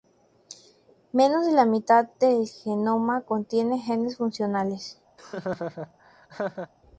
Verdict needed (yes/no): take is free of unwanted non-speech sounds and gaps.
no